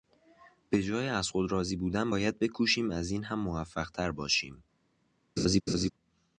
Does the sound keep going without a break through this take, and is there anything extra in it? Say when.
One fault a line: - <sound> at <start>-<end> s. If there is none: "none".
- laugh at 5.4-5.9 s